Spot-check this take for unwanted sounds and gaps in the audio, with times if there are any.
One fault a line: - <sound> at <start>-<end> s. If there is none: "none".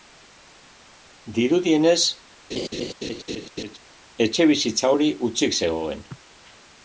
- laugh at 2.5-3.8 s